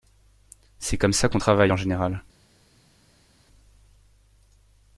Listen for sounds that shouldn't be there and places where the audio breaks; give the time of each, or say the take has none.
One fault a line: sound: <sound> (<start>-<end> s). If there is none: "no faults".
no faults